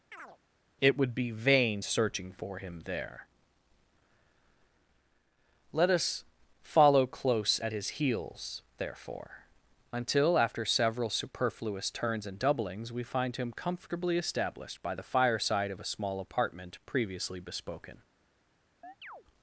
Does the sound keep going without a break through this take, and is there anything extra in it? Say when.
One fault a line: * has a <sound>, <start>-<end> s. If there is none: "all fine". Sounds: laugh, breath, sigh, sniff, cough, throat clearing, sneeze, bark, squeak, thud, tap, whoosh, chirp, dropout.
* has a chirp, 0.1-0.4 s
* has a chirp, 18.8-19.2 s